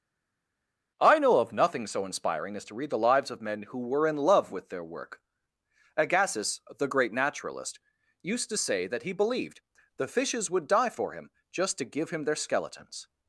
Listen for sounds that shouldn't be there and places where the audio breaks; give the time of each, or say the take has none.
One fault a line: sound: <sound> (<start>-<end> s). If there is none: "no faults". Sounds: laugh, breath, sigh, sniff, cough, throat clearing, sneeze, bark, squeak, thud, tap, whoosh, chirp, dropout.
no faults